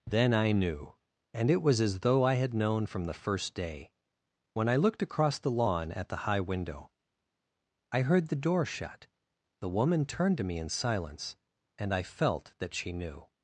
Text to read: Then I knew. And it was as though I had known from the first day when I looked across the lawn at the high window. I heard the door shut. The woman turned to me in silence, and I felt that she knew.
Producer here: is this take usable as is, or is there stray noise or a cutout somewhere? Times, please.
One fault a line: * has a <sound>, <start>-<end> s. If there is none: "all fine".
all fine